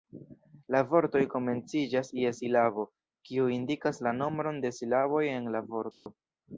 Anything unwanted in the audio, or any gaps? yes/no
yes